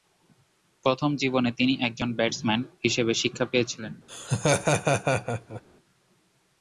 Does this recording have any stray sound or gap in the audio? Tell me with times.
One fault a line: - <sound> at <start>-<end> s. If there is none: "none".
- laugh at 4.1-5.6 s